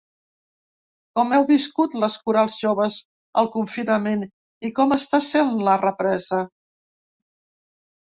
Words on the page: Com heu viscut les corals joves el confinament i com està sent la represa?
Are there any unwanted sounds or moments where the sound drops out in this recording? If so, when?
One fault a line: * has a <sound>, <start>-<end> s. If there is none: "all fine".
all fine